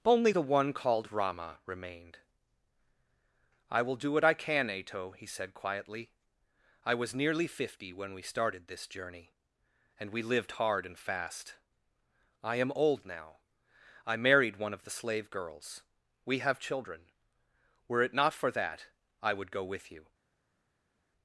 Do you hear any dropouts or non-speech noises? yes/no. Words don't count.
no